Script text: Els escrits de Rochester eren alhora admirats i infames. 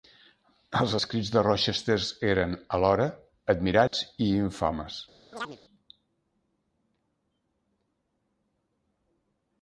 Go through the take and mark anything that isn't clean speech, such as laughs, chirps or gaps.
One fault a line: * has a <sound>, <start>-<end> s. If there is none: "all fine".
* has a dropout, 3.9-3.9 s
* has a chirp, 5.3-5.6 s